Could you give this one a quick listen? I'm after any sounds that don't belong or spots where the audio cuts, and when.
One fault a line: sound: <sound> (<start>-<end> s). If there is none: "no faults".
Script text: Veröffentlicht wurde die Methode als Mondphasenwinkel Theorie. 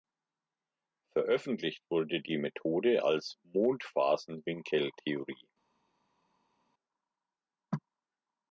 no faults